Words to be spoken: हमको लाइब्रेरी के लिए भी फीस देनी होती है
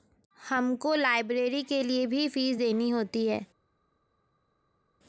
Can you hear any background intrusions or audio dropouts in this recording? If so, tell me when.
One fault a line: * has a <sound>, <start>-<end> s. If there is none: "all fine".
all fine